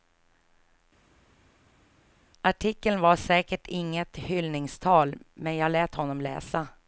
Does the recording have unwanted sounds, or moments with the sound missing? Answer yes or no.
no